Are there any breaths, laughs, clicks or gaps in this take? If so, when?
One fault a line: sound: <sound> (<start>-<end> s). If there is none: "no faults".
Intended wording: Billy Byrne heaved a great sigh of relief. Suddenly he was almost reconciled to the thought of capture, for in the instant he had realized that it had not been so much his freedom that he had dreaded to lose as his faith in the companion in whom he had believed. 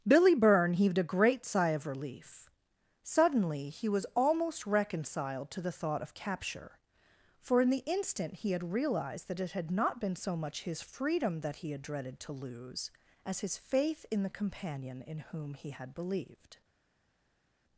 no faults